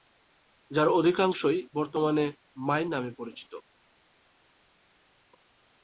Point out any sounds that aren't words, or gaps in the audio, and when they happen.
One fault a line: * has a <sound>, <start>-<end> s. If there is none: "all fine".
all fine